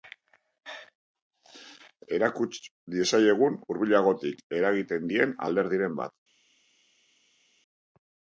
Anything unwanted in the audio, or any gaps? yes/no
no